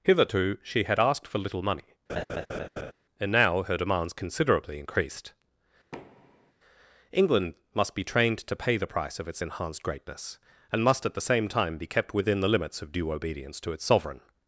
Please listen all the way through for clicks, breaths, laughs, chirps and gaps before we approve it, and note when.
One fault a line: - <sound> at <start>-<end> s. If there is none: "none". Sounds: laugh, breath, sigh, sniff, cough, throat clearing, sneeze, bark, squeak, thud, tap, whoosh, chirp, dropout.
- laugh at 2.1-2.9 s
- thud at 5.9-6.5 s